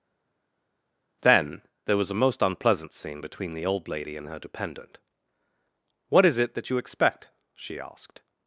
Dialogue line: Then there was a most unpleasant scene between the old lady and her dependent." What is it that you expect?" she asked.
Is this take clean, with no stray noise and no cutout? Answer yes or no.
yes